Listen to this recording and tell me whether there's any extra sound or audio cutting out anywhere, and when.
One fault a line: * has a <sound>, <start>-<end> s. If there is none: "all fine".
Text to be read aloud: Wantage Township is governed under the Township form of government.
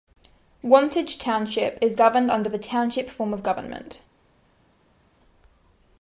all fine